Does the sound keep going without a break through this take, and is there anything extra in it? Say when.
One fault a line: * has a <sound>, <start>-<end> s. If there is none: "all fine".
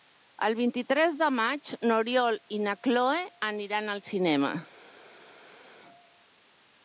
all fine